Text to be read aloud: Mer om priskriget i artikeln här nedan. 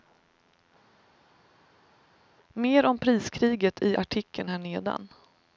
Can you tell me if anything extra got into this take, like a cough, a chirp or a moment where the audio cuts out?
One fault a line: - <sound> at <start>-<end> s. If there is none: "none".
none